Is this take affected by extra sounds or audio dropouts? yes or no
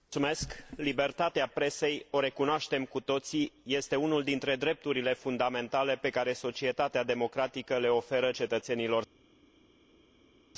no